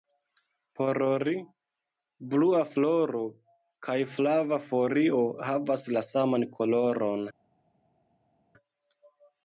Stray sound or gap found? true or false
false